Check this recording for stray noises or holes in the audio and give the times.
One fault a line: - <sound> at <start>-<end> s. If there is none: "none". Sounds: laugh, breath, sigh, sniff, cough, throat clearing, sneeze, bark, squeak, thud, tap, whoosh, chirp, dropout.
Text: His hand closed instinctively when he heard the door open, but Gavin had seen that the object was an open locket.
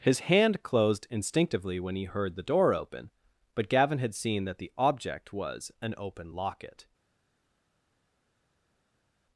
none